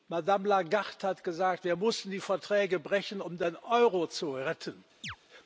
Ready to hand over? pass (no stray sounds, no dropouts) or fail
fail